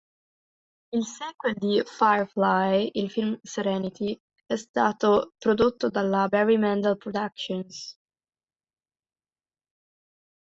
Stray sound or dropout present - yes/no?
no